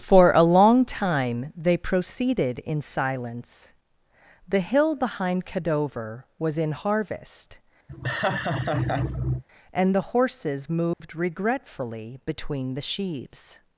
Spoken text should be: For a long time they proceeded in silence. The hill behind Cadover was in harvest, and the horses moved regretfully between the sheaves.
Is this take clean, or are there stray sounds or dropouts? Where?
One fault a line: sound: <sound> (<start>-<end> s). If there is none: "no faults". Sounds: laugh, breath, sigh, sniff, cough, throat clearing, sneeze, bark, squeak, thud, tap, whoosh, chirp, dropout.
sound: laugh (7.9-9.4 s)
sound: dropout (10.9-11.0 s)